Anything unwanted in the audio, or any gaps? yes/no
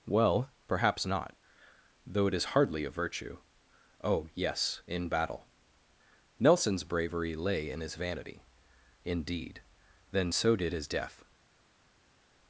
no